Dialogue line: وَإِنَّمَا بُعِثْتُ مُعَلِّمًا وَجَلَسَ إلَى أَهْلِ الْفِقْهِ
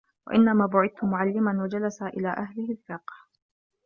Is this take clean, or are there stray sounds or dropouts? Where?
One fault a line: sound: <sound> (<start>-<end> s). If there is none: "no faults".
no faults